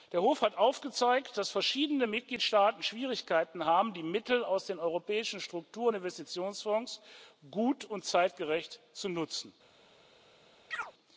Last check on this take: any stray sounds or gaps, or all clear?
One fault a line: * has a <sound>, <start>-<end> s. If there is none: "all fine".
* has a chirp, 10.7-10.9 s